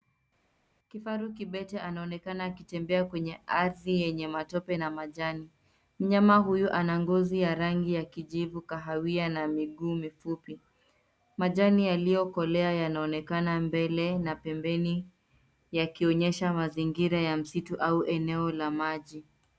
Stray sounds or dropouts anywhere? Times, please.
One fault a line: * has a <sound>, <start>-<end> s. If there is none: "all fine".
all fine